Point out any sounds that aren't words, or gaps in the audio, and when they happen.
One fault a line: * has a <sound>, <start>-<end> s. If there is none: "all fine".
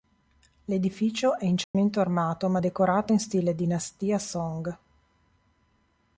* has a dropout, 1.6-1.7 s